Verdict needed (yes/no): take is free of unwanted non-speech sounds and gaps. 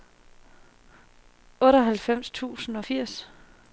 yes